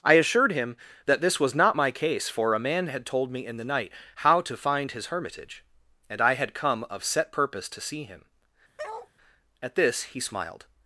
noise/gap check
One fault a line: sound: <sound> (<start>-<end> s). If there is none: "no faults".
sound: bark (8.8-9.1 s)